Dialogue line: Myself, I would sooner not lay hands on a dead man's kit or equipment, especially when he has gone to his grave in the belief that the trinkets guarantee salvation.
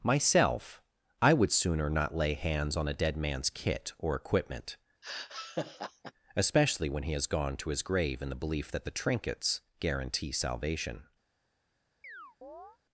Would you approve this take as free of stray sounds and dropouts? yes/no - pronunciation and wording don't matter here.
no